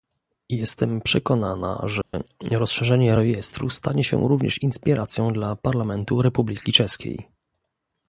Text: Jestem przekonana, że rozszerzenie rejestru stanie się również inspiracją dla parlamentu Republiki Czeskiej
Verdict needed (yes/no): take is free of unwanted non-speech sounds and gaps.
no